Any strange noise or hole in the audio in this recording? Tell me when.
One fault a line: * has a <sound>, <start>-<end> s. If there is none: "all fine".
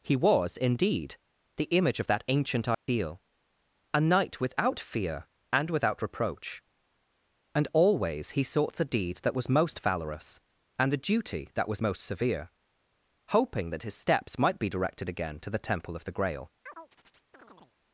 * has a dropout, 2.7-2.9 s
* has a chirp, 16.6-17.8 s